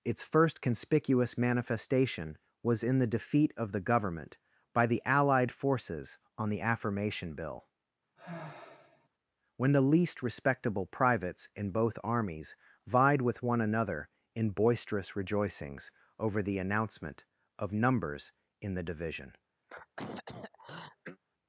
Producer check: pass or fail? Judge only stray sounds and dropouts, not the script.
fail